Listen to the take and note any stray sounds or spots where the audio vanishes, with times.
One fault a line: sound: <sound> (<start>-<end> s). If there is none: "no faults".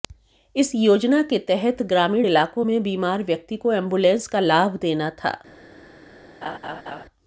sound: laugh (6.4-7.1 s)